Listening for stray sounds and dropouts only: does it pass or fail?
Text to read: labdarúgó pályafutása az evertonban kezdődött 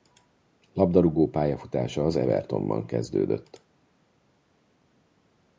pass